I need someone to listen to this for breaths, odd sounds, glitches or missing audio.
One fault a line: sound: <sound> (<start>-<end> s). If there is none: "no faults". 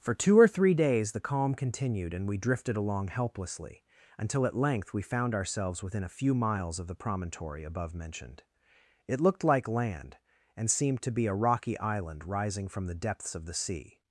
no faults